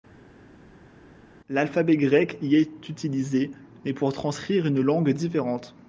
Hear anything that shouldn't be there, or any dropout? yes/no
no